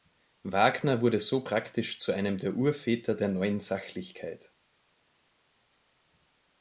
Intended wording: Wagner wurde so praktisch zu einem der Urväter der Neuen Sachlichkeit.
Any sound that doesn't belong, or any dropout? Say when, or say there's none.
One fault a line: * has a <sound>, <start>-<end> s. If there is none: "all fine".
all fine